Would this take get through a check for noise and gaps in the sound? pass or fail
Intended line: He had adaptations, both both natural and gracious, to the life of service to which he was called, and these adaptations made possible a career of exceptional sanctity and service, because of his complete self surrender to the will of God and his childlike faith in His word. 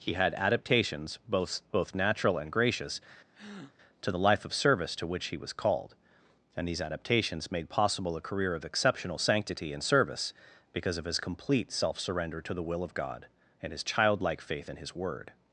fail